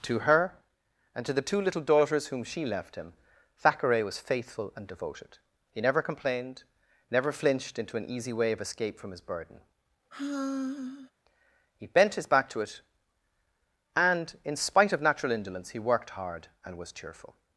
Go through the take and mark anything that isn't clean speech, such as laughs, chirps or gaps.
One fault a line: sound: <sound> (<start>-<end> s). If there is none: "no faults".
sound: sigh (10.1-11.1 s)